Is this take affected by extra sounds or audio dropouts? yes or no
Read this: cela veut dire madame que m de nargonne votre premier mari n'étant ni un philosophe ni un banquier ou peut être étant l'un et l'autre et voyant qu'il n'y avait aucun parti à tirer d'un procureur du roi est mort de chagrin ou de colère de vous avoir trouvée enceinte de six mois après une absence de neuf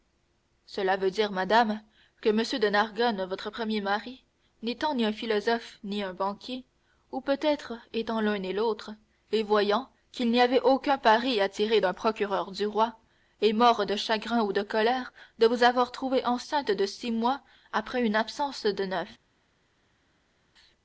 no